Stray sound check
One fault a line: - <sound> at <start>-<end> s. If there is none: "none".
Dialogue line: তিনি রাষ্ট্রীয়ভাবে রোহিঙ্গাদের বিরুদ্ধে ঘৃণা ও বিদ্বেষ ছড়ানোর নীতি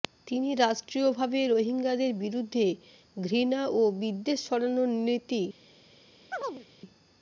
- chirp at 6.3-6.7 s